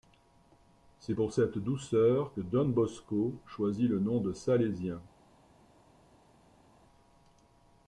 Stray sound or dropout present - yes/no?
no